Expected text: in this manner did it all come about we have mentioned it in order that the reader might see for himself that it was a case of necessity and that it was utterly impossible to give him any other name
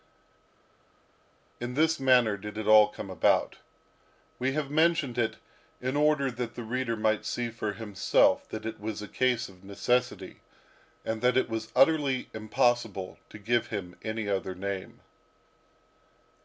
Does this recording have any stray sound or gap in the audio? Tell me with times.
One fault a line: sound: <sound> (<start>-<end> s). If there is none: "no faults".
no faults